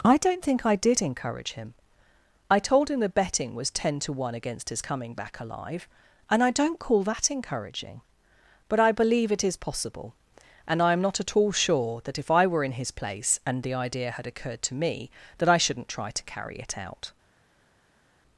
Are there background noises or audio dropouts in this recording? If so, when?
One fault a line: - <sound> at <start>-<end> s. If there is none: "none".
none